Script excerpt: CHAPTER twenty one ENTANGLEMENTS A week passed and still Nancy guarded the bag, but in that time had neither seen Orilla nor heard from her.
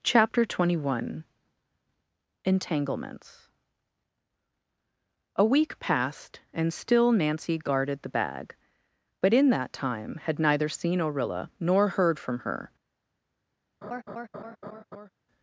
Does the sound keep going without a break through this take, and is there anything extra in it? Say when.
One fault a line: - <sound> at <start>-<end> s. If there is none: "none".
- laugh at 13.8-15.1 s